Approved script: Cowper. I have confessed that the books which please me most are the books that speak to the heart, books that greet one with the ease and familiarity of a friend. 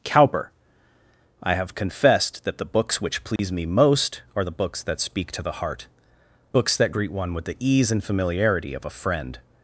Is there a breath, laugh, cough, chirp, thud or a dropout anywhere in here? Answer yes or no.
yes